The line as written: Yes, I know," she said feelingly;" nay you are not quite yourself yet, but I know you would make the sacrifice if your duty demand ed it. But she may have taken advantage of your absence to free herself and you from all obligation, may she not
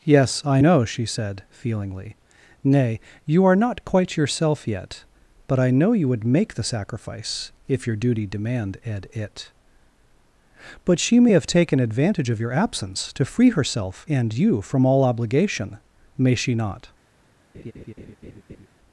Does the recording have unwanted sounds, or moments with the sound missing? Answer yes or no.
yes